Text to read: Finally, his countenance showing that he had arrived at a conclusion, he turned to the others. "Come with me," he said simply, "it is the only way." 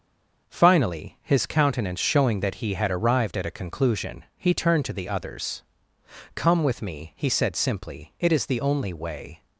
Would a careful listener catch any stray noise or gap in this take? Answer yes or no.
no